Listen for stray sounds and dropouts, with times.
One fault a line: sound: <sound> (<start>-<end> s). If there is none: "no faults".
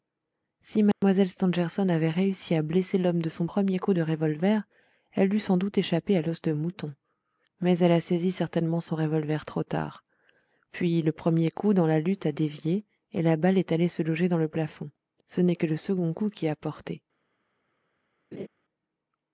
sound: dropout (0.9-1.0 s)
sound: laugh (18.3-18.5 s)